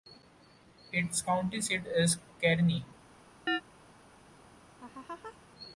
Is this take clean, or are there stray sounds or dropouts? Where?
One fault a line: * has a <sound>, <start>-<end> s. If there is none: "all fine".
* has a chirp, 3.5-3.6 s
* has a laugh, 4.8-5.4 s